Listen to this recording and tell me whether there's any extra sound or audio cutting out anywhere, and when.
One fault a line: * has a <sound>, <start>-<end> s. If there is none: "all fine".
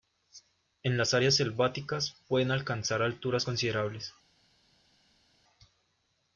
all fine